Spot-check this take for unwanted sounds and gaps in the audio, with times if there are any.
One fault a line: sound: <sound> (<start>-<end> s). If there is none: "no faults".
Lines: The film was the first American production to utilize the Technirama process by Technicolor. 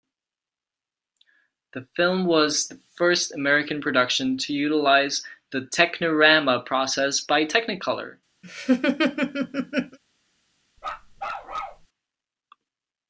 sound: laugh (8.4-10.0 s)
sound: bark (10.8-11.9 s)